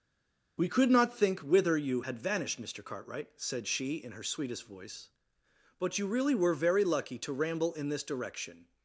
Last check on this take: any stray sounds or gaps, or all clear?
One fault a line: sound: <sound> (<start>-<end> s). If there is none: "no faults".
no faults